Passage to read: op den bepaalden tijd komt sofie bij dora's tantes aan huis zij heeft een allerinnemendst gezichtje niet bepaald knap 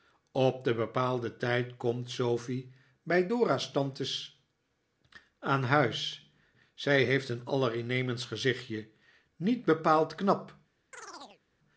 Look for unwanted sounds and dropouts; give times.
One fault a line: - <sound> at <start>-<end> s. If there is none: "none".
- chirp at 10.9-11.4 s